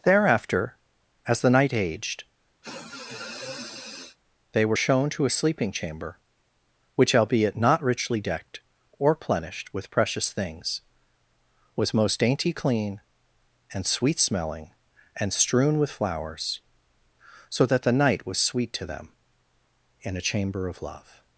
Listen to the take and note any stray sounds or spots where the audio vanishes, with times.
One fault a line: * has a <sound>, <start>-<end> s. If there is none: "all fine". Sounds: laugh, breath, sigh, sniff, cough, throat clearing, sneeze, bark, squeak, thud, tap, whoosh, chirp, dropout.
* has a sniff, 2.6-4.2 s